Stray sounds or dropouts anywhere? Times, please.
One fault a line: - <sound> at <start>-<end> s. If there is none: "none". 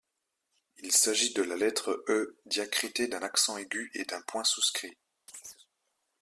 - chirp at 5.3-5.7 s